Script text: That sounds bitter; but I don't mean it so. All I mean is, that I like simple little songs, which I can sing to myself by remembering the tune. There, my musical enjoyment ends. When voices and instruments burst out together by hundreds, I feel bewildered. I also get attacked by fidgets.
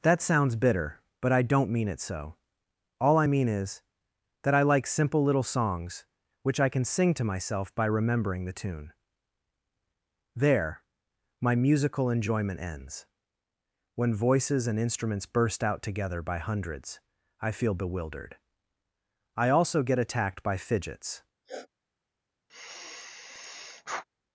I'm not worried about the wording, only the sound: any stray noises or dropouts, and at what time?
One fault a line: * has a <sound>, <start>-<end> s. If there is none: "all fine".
* has a sniff, 21.4-21.7 s
* has a sigh, 22.5-24.0 s